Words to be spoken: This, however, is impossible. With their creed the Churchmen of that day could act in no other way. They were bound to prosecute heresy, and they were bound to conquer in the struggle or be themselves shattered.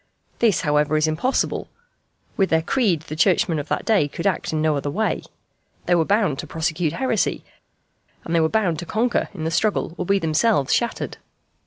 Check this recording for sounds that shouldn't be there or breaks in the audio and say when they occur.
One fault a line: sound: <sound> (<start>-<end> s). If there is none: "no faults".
no faults